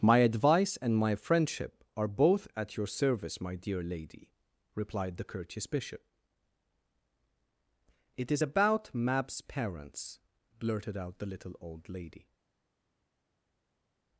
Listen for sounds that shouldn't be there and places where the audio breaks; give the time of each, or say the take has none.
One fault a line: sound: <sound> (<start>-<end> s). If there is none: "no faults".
no faults